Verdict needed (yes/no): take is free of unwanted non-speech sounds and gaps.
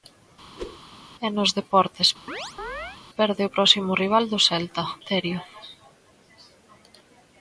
no